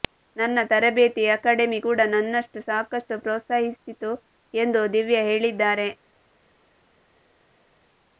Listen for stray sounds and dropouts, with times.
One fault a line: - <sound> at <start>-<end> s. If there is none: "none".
none